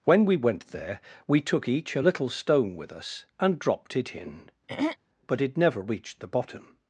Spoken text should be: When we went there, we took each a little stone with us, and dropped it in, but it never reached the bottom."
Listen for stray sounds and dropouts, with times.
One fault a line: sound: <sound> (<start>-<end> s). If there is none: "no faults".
sound: throat clearing (4.7-5.0 s)